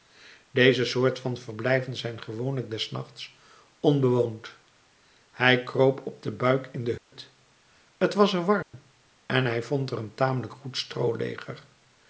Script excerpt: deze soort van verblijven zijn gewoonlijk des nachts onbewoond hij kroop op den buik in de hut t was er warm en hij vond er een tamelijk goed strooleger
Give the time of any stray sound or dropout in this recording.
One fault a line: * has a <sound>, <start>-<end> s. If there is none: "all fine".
* has a dropout, 7.0-7.1 s
* has a dropout, 8.6-8.7 s